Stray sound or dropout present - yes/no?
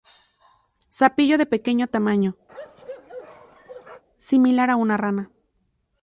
yes